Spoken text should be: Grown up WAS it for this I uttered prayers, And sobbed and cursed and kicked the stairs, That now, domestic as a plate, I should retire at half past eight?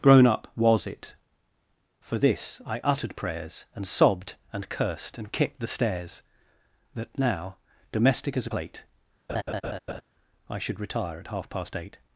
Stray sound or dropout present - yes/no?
yes